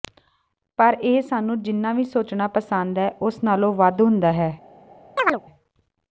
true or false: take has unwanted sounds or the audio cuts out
true